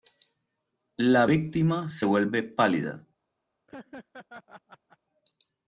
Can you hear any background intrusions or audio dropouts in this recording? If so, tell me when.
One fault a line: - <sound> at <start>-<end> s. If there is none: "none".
- laugh at 3.7-5.0 s